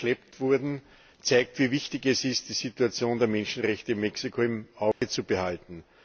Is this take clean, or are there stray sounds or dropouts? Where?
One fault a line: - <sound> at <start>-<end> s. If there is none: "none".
- dropout at 4.9-5.0 s